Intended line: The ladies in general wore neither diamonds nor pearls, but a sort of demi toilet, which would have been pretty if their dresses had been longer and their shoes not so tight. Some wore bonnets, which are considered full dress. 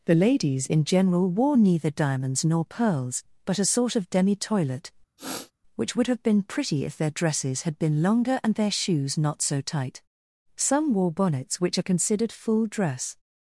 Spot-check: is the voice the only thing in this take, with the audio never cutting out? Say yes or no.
no